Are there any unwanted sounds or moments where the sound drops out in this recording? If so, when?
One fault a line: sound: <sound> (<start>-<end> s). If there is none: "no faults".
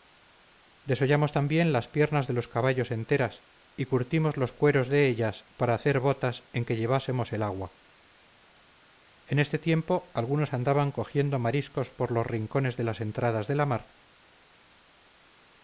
no faults